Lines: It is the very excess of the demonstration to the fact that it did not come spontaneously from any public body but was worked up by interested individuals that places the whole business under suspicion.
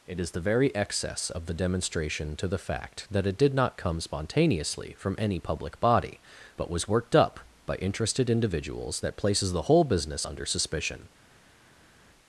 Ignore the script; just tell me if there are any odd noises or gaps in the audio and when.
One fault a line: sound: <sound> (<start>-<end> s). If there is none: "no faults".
no faults